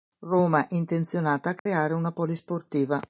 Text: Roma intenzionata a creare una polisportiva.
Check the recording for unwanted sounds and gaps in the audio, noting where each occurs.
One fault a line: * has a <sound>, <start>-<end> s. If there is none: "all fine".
* has a dropout, 1.6-1.7 s